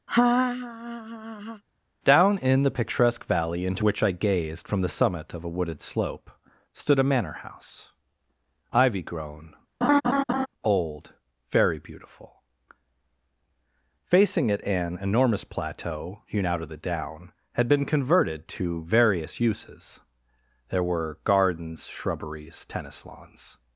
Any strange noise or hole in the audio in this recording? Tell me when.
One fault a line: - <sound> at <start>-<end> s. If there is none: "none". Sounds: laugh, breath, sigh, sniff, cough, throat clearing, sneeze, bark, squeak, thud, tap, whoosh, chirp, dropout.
- laugh at 0.1-1.6 s
- laugh at 9.8-10.5 s